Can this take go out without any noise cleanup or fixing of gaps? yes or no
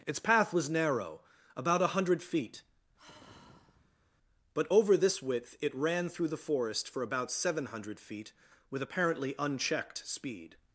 no